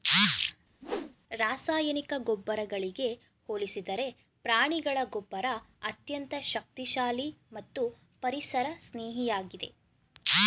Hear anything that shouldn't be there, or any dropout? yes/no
yes